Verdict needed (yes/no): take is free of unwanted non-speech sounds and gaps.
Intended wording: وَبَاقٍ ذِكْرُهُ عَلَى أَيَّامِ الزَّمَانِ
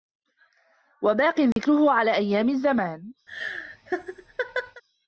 no